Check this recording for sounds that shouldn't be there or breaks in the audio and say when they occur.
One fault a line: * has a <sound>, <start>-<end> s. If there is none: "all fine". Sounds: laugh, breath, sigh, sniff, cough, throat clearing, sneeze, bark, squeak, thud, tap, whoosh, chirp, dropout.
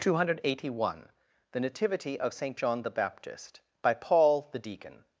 all fine